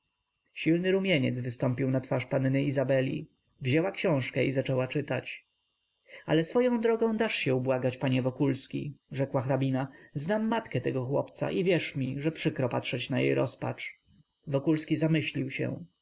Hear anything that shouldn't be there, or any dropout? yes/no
no